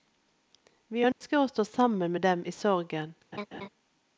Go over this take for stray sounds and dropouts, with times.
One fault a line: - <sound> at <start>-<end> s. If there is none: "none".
- dropout at 1.1-1.2 s
- laugh at 3.3-3.7 s